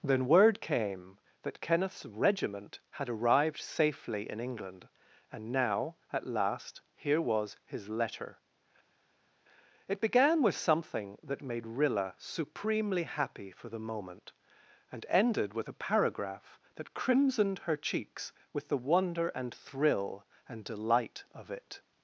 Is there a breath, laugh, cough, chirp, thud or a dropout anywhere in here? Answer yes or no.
no